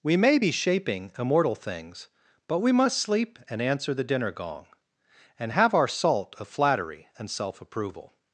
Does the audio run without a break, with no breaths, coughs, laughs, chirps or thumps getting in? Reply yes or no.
yes